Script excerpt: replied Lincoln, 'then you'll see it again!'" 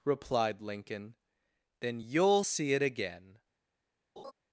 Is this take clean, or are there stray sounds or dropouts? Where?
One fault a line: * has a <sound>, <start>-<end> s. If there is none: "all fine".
* has a laugh, 4.2-4.3 s